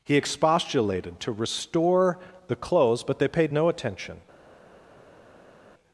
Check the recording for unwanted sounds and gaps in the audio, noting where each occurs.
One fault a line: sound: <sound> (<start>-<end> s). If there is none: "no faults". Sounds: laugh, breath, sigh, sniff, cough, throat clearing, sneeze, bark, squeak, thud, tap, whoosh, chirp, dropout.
no faults